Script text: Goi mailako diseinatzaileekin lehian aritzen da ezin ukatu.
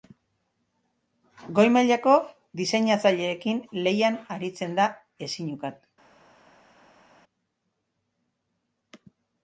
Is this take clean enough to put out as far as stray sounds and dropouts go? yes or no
yes